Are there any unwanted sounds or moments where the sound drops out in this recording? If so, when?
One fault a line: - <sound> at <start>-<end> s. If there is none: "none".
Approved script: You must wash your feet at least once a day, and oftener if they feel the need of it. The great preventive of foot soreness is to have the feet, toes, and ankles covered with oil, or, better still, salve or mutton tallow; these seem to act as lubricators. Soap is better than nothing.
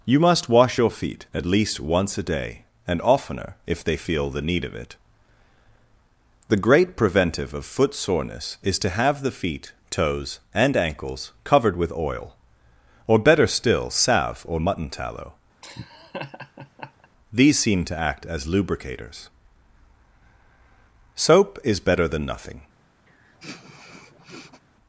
- laugh at 15.6-17.1 s
- sniff at 23.1-24.6 s